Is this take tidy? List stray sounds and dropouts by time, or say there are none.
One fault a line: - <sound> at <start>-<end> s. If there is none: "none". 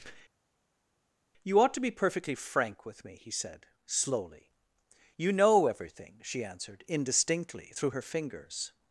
none